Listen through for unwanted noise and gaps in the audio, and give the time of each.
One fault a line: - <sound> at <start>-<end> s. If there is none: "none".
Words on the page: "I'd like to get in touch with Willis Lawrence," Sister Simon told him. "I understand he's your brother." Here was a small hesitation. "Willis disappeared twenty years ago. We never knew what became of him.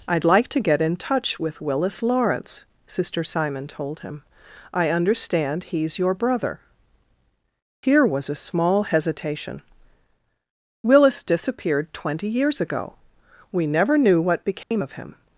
- dropout at 14.6-14.7 s